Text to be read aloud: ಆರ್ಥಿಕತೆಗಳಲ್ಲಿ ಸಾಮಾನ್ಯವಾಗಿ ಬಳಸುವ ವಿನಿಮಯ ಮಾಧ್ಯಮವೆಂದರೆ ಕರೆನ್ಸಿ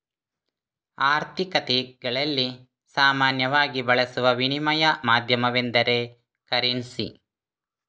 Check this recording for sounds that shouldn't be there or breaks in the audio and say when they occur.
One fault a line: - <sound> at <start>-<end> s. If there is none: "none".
none